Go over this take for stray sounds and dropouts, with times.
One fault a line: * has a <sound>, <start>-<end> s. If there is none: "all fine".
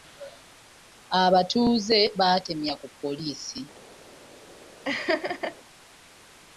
* has a laugh, 4.8-5.6 s